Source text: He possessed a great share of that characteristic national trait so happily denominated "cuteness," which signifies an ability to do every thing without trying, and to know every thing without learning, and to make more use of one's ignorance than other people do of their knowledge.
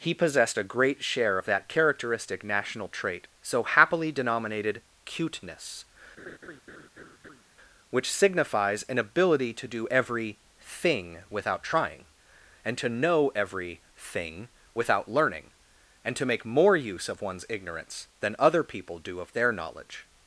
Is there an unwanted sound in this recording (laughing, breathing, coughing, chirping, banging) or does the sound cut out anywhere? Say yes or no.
yes